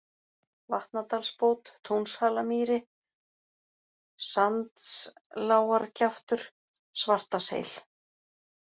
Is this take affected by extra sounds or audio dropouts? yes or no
no